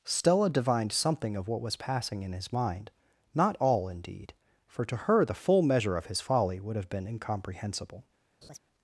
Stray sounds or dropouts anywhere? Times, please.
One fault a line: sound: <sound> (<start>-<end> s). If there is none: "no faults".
sound: laugh (8.4-8.6 s)